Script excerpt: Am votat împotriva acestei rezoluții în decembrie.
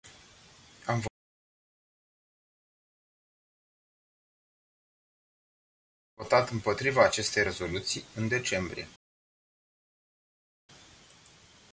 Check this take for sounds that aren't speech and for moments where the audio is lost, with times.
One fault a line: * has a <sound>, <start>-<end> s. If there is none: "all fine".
all fine